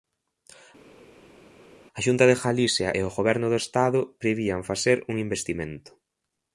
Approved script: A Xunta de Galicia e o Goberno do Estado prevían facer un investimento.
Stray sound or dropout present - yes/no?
no